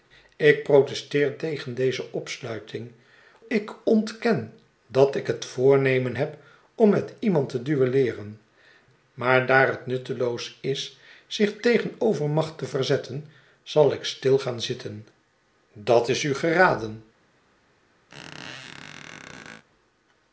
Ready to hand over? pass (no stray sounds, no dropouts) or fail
fail